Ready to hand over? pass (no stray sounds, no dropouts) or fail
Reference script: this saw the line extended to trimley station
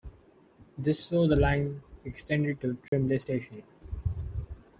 fail